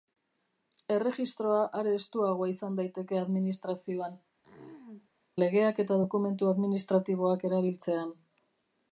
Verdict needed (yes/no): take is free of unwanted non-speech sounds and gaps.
no